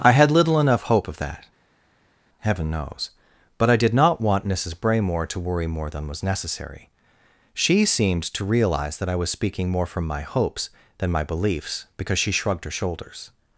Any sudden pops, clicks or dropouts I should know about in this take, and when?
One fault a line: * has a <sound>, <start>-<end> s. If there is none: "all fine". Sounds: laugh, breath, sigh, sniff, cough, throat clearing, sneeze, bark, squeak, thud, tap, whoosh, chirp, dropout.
all fine